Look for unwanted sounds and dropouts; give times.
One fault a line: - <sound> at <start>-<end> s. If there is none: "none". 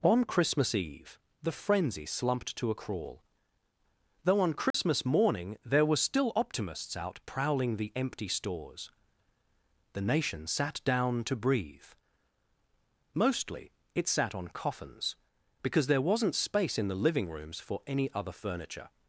- dropout at 4.7-4.7 s